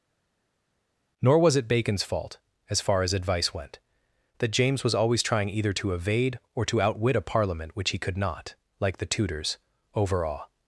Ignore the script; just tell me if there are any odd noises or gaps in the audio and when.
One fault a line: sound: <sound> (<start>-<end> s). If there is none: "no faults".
no faults